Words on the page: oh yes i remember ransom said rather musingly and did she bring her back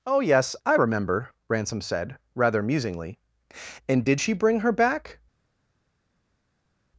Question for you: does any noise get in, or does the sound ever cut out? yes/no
no